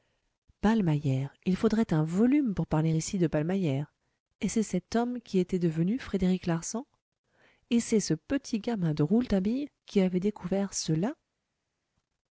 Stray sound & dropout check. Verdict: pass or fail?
pass